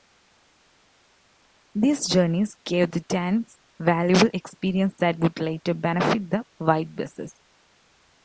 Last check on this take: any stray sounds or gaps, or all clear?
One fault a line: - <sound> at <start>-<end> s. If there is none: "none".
none